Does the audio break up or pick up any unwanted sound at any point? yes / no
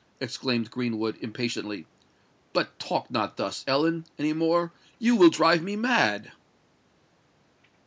no